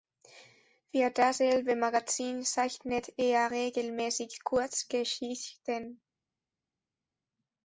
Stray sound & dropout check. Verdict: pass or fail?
pass